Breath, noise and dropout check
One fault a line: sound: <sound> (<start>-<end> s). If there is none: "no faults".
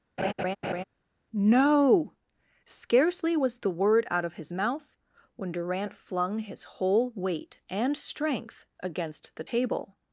sound: laugh (0.2-0.8 s)